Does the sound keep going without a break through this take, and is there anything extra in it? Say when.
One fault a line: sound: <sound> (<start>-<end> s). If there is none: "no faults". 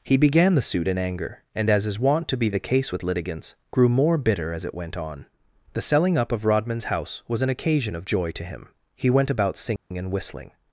sound: dropout (9.8-9.9 s)